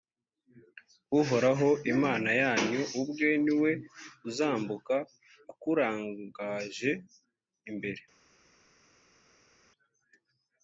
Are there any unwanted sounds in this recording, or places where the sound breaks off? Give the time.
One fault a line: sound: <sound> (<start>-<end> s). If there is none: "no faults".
no faults